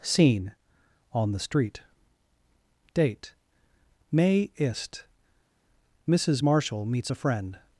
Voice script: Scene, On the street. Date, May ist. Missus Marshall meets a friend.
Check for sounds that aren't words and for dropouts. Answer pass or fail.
pass